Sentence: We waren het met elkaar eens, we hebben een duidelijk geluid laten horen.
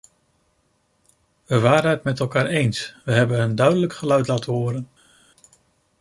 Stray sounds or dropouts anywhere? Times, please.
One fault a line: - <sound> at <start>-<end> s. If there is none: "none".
none